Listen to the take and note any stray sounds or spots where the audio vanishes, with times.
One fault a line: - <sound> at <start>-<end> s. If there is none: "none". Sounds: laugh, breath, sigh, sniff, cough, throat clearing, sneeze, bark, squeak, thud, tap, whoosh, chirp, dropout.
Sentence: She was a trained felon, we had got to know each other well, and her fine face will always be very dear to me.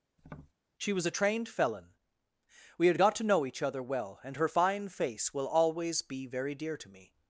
- tap at 0.2-0.5 s